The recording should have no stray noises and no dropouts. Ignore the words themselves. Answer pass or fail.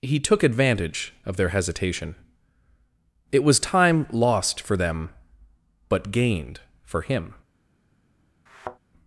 fail